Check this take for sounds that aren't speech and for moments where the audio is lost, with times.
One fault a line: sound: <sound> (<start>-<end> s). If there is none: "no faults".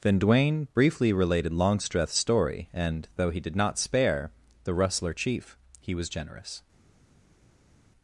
no faults